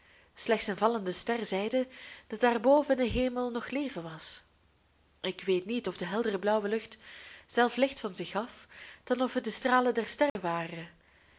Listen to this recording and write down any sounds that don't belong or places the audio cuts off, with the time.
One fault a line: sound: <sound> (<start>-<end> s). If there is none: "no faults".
sound: dropout (10.3-10.4 s)